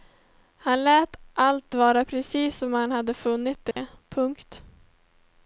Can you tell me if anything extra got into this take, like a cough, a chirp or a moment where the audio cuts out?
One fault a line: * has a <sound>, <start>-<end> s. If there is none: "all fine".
* has a dropout, 3.7-3.8 s